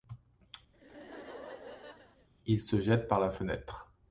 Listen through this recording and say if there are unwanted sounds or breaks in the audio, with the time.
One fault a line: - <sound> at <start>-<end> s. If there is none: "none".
- laugh at 0.7-2.3 s